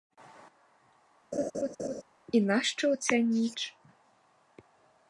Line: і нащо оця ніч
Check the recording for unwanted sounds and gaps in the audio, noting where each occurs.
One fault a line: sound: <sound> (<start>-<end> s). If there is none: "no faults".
sound: laugh (1.3-2.0 s)